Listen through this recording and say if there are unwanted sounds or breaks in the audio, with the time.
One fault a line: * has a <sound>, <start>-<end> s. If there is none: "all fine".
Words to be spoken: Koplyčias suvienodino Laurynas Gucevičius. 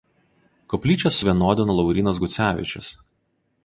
all fine